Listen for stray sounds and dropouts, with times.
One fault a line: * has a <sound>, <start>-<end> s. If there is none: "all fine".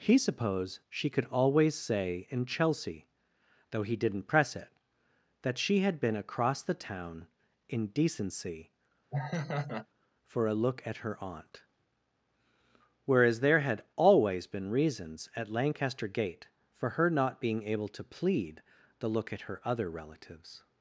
* has a laugh, 9.1-9.9 s